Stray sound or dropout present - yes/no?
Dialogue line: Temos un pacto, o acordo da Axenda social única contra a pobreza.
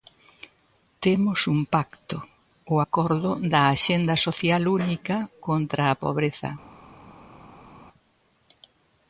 no